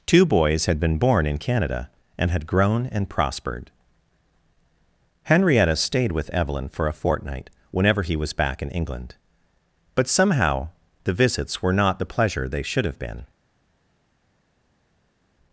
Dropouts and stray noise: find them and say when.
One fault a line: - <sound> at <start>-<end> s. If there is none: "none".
none